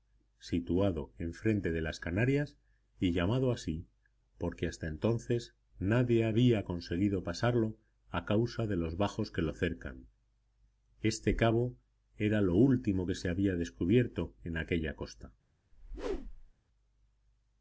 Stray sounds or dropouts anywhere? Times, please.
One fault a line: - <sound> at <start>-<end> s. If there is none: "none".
- whoosh at 15.7-16.5 s